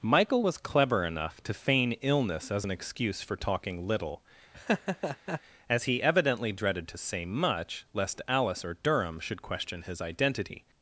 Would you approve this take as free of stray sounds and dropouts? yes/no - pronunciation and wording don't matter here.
no